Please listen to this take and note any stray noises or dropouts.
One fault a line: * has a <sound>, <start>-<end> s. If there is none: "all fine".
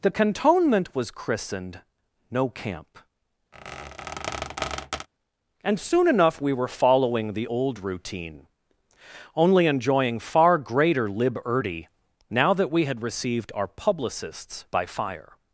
* has a squeak, 3.5-5.1 s